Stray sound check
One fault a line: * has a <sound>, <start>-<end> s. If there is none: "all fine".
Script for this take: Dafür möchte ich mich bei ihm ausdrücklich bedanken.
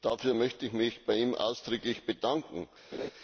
* has a laugh, 2.9-3.1 s